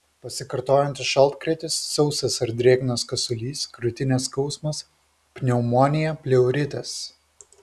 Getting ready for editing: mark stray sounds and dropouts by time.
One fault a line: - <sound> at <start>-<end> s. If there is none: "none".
none